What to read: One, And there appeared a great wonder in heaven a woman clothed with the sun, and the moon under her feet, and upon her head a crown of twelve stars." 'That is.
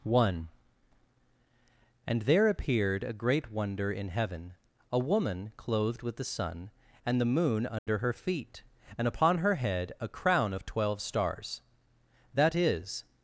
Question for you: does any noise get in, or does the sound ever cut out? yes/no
yes